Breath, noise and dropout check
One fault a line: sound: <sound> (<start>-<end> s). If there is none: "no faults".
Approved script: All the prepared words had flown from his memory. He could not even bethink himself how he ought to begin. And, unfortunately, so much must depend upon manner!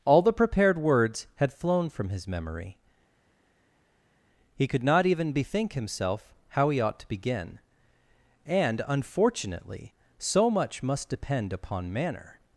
no faults